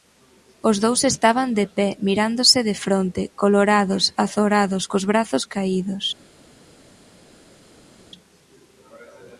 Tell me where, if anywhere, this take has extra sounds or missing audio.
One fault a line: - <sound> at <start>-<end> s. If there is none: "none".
none